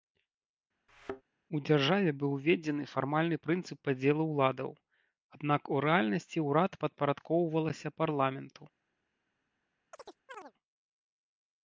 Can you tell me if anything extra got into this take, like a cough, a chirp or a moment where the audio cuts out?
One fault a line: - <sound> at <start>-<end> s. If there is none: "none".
- thud at 0.9-1.2 s
- chirp at 9.9-10.5 s